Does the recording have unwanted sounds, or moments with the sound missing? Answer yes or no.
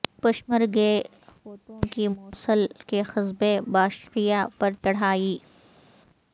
no